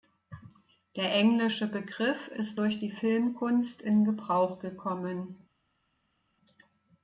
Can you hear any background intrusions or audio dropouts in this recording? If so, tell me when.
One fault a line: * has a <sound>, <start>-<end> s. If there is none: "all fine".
all fine